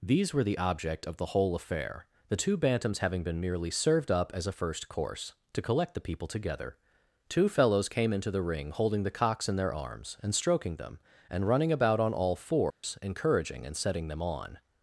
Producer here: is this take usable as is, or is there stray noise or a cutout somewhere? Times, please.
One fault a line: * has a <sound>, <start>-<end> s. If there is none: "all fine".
* has a dropout, 12.7-12.8 s